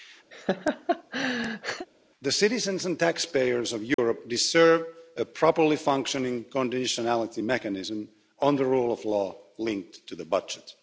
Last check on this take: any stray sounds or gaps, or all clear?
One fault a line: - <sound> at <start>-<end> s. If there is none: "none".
- laugh at 0.3-1.9 s
- dropout at 3.9-4.0 s